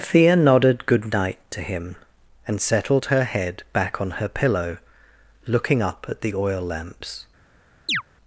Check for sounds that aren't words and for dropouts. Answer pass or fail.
fail